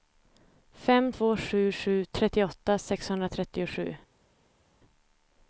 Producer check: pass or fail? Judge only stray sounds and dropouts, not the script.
pass